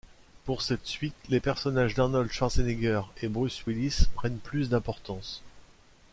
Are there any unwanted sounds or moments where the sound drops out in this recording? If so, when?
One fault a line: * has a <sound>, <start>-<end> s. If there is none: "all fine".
all fine